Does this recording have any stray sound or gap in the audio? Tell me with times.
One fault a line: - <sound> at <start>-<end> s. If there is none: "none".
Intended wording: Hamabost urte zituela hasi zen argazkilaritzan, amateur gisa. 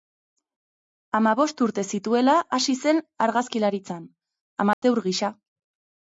- dropout at 4.7-4.8 s